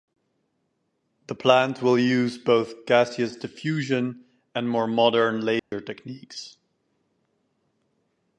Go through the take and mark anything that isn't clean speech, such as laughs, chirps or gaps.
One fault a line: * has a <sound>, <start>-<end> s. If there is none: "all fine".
* has a dropout, 5.6-5.7 s